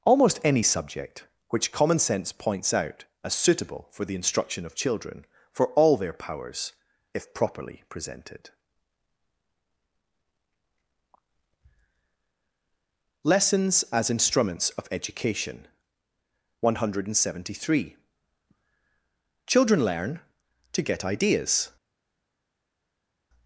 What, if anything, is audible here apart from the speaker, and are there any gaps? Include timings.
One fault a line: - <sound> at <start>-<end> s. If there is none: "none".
none